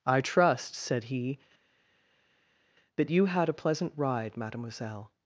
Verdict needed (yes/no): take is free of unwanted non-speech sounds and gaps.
yes